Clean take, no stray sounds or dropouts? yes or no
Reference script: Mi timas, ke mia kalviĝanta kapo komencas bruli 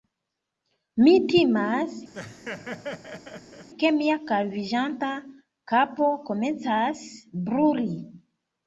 no